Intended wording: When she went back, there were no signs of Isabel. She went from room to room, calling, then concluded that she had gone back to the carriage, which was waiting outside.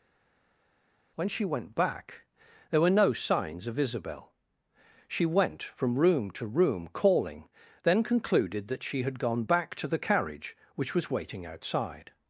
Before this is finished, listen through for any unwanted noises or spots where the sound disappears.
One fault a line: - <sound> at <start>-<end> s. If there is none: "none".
none